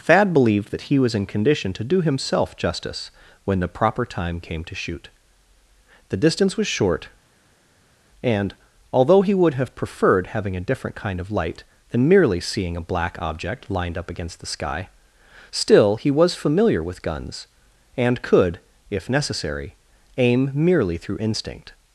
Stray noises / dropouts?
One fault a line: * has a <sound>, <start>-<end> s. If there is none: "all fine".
all fine